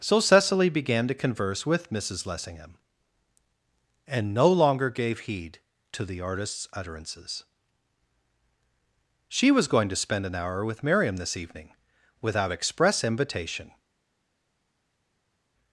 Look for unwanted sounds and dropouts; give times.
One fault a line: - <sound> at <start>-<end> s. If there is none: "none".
none